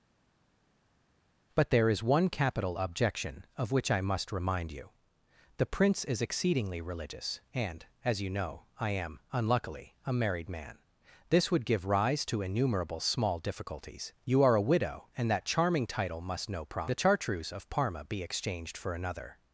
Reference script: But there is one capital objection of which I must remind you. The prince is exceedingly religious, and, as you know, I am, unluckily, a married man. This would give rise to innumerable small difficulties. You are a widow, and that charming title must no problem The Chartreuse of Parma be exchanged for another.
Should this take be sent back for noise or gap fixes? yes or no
no